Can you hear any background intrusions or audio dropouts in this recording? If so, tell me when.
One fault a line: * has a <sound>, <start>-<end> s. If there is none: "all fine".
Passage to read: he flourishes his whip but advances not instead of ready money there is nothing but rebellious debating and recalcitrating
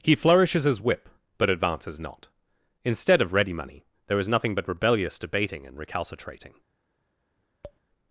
* has a tap, 7.6-7.8 s